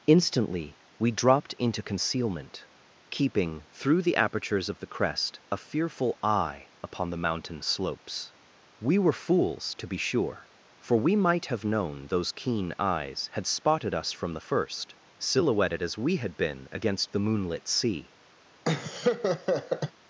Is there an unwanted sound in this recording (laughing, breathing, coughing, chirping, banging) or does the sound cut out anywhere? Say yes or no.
yes